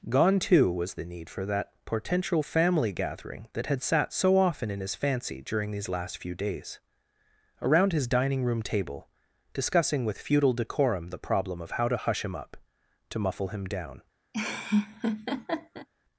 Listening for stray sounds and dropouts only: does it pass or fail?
fail